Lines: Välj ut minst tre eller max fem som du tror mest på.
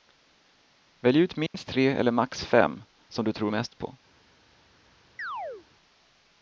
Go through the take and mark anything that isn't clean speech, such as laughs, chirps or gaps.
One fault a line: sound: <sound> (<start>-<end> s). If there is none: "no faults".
sound: dropout (1.5-1.5 s)
sound: chirp (5.2-5.7 s)